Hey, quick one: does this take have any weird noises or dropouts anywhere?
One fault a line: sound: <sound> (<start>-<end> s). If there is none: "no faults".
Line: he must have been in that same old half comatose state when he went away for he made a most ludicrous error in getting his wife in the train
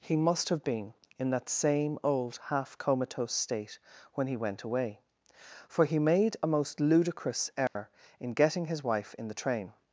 sound: dropout (7.7-7.8 s)